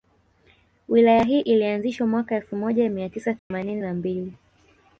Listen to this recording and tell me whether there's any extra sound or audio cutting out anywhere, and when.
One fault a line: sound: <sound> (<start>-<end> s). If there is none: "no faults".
sound: dropout (3.4-3.5 s)